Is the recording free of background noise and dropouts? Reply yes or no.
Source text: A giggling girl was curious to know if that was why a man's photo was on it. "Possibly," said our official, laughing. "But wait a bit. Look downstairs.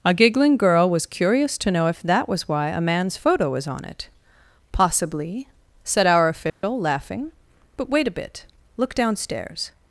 no